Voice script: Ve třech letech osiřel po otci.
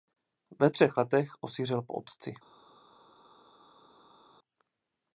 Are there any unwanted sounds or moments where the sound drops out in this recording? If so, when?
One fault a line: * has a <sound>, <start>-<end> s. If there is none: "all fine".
all fine